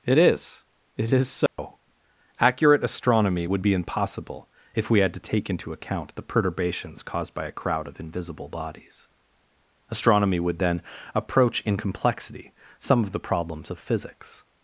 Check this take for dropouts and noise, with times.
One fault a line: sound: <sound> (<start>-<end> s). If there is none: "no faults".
sound: dropout (1.5-1.6 s)